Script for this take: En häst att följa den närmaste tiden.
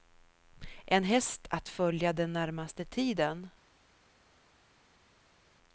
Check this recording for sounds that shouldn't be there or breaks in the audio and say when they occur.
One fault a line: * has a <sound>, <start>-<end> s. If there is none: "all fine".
all fine